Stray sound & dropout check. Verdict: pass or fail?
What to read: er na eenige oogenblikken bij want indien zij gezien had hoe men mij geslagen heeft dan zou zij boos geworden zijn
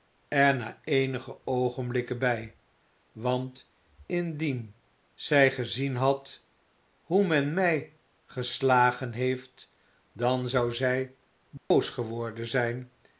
fail